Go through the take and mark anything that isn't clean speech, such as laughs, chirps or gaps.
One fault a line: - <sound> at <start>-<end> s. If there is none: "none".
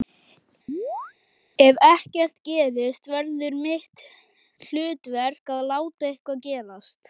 - chirp at 0.7-1.1 s